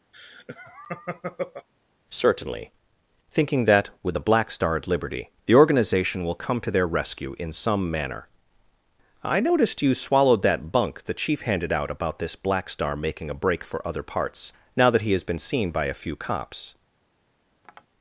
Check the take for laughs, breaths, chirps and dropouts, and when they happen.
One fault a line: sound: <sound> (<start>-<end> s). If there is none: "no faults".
sound: laugh (0.1-1.7 s)
sound: tap (17.6-17.9 s)